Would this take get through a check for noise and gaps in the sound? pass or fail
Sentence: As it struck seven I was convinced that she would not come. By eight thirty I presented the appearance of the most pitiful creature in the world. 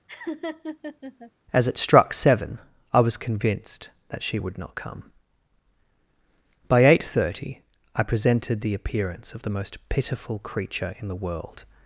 fail